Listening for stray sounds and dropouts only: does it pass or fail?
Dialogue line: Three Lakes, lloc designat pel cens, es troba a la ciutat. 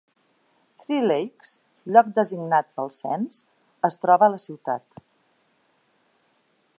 pass